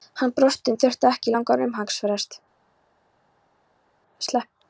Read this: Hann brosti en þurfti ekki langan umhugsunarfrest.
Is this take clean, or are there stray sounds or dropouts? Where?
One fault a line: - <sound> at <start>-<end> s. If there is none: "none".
none